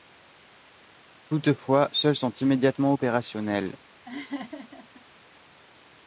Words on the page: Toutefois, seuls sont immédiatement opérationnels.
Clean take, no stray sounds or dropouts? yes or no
no